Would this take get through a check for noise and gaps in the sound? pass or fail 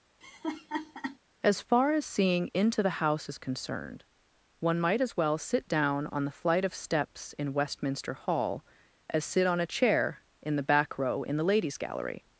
fail